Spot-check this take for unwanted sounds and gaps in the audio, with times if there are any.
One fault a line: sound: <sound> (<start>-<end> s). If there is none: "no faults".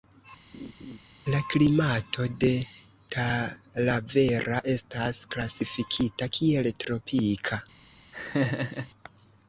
sound: laugh (0.5-1.0 s)
sound: laugh (8.1-8.9 s)